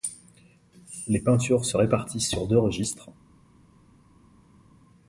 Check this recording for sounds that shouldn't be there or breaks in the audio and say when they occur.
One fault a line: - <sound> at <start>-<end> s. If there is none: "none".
none